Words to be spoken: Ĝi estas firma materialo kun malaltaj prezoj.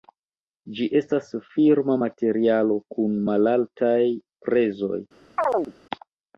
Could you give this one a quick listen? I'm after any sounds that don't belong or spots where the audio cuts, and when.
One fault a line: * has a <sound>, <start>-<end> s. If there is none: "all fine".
* has a chirp, 5.4-5.7 s